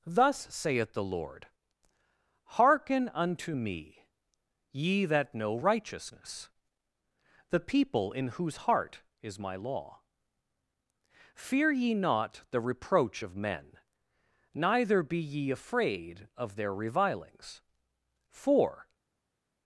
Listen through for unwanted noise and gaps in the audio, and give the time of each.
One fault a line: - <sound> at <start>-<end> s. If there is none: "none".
none